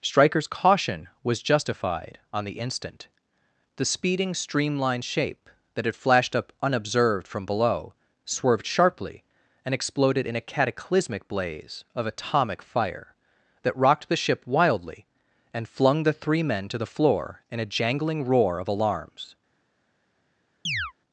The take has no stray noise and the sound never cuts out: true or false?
false